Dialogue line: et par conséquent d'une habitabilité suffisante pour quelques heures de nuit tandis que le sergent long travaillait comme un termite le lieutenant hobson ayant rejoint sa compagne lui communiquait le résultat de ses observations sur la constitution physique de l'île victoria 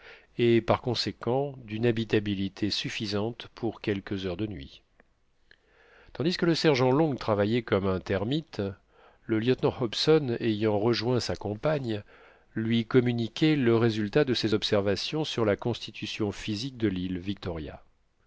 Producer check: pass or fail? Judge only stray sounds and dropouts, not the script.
pass